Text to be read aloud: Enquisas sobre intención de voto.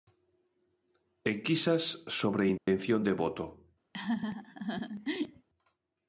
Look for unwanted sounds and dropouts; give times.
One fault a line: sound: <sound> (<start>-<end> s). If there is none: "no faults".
sound: dropout (2.6-2.7 s)
sound: laugh (3.9-5.5 s)